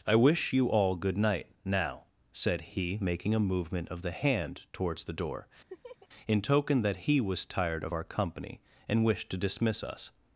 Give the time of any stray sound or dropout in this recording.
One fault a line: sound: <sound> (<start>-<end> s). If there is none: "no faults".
sound: laugh (5.7-6.1 s)